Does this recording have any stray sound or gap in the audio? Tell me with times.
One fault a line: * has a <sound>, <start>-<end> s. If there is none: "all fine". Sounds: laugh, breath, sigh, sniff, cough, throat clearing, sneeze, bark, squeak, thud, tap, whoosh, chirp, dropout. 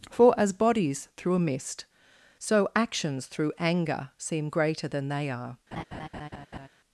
* has a laugh, 5.7-6.7 s